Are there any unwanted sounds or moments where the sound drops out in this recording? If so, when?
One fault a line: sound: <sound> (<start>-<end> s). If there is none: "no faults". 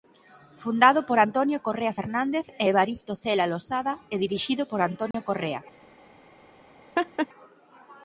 sound: dropout (5.1-5.1 s)
sound: laugh (7.0-7.3 s)